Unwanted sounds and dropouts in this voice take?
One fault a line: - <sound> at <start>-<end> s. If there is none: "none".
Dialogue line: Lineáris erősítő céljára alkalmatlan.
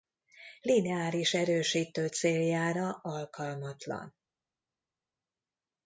none